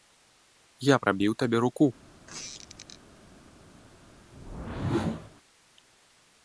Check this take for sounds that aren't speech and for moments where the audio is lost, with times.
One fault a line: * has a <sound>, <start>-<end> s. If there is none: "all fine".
* has a squeak, 2.3-3.0 s
* has a whoosh, 4.3-5.3 s